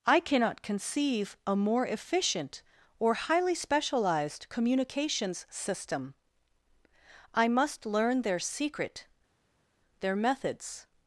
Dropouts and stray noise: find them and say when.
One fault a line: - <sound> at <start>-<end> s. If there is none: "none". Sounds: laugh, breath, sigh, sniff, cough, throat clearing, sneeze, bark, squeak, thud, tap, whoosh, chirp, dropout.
none